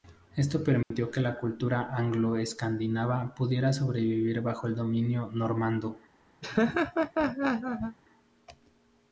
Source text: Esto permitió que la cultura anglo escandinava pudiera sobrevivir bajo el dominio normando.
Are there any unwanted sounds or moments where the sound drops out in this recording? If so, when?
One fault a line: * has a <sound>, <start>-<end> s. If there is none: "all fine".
* has a dropout, 0.8-0.9 s
* has a laugh, 6.4-8.0 s